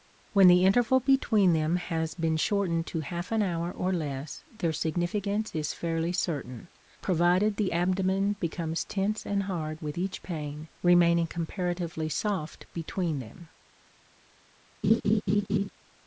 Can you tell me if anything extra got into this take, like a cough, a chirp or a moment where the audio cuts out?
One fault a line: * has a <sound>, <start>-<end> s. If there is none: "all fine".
* has a laugh, 14.8-15.7 s